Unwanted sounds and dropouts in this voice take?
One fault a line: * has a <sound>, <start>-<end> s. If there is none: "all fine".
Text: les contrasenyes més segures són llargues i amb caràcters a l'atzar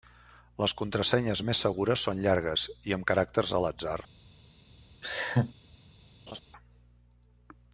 * has a laugh, 5.0-5.5 s
* has a laugh, 6.3-6.4 s